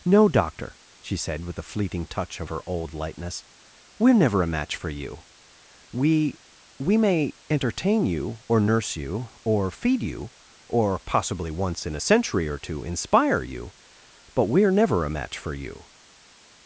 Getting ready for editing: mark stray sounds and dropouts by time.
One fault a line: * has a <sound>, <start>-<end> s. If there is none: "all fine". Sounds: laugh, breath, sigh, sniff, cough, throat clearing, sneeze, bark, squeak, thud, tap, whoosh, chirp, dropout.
all fine